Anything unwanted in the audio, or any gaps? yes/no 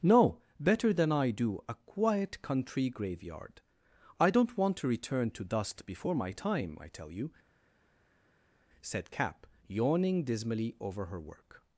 no